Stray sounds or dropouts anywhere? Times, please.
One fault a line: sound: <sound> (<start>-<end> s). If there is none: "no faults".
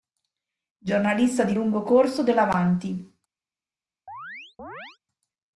sound: chirp (4.1-5.0 s)